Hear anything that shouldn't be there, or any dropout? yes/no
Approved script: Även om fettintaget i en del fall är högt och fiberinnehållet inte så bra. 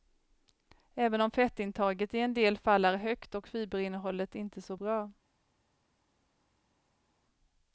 no